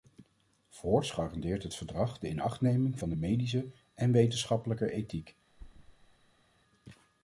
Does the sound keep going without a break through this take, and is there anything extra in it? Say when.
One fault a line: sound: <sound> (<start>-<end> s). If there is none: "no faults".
sound: thud (5.5-6.4 s)